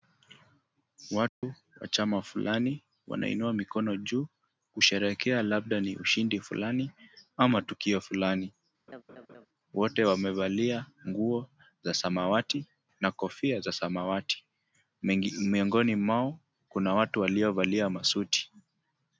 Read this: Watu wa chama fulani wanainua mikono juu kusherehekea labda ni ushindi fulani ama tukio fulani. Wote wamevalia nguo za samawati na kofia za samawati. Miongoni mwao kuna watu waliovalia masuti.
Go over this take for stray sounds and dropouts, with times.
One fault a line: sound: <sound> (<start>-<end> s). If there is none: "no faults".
sound: dropout (1.3-1.4 s)
sound: laugh (8.9-9.5 s)